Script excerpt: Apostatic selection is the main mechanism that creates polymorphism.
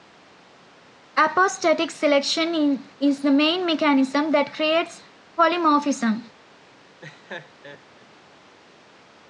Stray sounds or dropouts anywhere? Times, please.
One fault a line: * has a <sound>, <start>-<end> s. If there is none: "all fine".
* has a laugh, 7.0-8.1 s